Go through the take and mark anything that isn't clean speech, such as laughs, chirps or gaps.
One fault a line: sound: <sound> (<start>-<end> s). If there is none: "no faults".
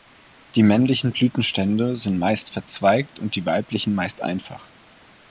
no faults